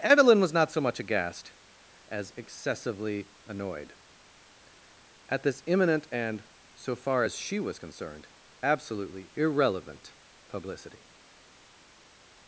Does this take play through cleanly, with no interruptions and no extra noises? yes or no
yes